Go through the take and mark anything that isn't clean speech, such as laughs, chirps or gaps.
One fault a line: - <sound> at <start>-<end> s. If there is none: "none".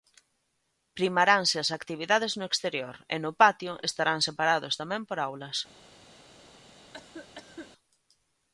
- cough at 6.9-7.7 s